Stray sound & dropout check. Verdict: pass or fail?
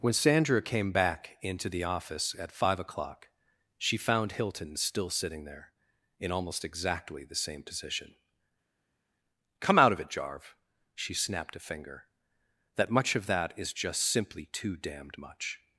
pass